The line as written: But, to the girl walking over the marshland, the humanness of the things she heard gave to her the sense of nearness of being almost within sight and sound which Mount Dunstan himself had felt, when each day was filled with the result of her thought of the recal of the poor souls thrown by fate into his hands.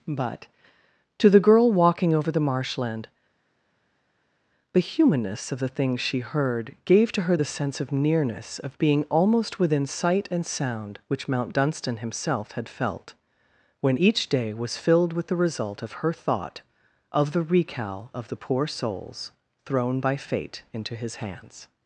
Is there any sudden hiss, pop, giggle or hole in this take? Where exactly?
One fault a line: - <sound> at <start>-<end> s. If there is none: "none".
none